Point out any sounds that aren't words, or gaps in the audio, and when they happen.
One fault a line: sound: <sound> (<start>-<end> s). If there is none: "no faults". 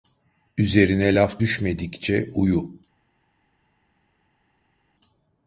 no faults